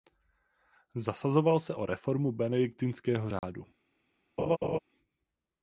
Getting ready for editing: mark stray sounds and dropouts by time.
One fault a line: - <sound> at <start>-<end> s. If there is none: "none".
- dropout at 3.4-3.4 s
- laugh at 4.4-4.8 s